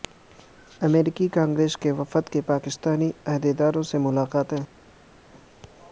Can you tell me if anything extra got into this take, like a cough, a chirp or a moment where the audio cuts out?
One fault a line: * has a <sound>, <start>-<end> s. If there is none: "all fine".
all fine